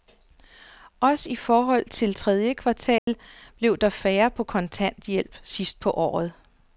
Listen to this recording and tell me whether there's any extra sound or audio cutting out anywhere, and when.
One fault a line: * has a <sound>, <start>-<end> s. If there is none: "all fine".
* has a dropout, 3.0-3.1 s